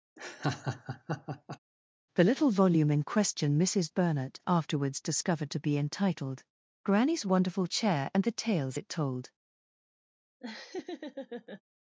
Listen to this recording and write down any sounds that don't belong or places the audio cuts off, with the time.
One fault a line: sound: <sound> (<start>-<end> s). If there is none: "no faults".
sound: laugh (0.2-1.6 s)
sound: laugh (10.4-11.6 s)